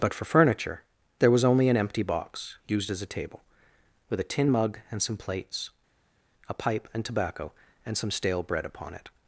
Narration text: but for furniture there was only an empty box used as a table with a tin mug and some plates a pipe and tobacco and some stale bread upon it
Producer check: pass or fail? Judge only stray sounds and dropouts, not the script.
pass